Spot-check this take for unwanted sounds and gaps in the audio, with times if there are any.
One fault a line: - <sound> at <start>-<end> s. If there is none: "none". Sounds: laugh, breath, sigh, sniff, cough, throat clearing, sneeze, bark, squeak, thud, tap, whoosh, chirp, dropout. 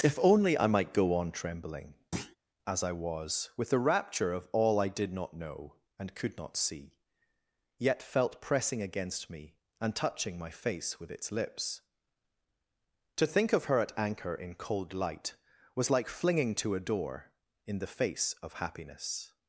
- thud at 2.1-2.4 s